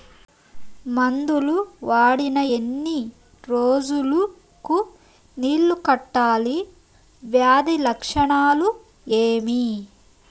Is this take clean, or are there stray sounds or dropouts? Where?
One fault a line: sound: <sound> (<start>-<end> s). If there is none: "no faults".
no faults